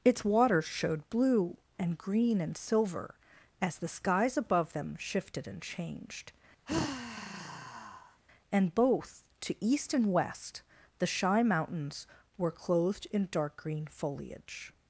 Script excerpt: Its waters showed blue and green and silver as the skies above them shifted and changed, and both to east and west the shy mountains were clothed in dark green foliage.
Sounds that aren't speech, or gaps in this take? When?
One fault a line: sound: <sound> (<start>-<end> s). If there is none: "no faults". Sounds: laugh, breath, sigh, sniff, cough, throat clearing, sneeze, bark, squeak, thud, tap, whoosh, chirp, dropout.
sound: sigh (6.7-8.2 s)